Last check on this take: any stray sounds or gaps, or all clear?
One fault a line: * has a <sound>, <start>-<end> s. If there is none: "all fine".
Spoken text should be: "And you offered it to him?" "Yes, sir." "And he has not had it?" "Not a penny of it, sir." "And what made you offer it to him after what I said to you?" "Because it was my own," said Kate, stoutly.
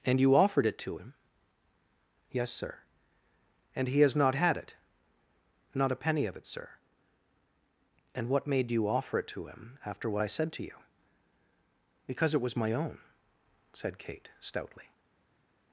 all fine